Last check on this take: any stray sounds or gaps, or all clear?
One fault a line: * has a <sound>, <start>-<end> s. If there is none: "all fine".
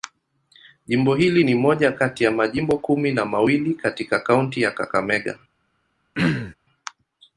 * has a throat clearing, 6.1-6.5 s